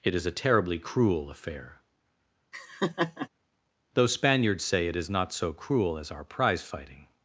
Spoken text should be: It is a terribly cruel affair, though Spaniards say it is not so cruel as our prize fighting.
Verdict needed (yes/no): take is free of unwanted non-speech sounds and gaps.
no